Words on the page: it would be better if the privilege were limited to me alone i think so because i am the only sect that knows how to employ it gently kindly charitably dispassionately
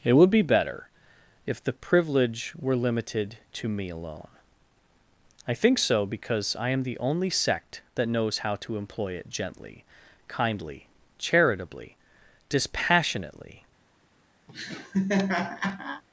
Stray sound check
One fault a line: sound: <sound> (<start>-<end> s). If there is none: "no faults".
sound: laugh (14.5-16.0 s)